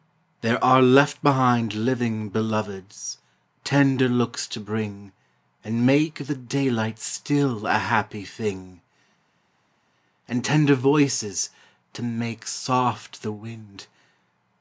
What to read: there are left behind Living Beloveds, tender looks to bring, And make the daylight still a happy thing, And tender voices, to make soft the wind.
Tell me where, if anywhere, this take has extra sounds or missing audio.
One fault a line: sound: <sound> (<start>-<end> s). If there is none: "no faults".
no faults